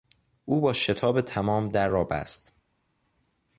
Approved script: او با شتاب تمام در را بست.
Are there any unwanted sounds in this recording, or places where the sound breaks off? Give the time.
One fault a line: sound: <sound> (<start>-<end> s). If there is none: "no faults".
no faults